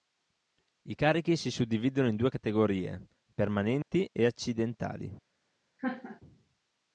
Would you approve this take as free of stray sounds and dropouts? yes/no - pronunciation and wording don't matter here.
no